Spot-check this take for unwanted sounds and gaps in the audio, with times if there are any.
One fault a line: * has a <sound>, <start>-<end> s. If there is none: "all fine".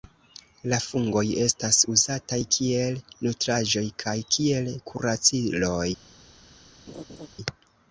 * has a laugh, 6.9-7.3 s